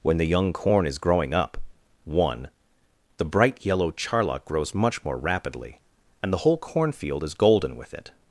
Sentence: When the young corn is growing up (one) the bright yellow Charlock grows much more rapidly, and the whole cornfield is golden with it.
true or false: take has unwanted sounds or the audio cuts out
false